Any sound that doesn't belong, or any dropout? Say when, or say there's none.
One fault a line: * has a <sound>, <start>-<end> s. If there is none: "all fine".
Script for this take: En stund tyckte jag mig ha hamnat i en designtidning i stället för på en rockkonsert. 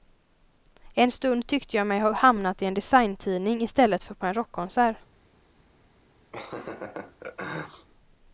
* has a laugh, 6.3-7.9 s